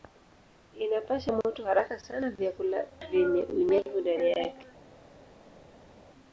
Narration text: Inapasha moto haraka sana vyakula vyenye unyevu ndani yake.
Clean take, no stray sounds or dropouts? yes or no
yes